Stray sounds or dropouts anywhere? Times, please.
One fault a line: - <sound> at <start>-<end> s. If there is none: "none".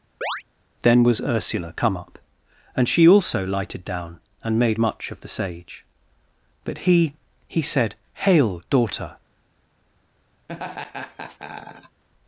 - chirp at 0.2-0.4 s
- laugh at 10.5-12.0 s